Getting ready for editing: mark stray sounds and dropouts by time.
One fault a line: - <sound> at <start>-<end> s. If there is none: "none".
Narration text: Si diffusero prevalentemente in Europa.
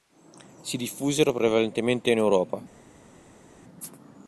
none